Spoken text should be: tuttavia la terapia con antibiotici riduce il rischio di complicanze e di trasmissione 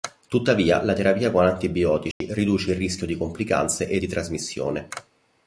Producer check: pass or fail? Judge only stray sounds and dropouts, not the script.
fail